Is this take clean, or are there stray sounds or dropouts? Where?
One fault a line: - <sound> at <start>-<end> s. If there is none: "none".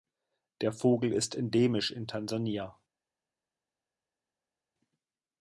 none